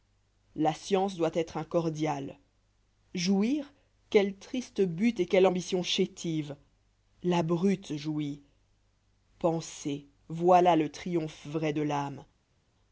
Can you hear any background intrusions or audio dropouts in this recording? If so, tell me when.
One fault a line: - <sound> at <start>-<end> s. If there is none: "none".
none